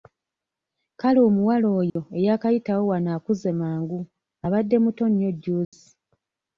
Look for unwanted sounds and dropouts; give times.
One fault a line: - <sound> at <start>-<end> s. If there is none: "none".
- dropout at 1.9-2.0 s
- dropout at 5.6-5.7 s